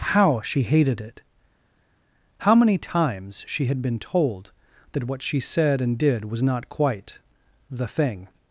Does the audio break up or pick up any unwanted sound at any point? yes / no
no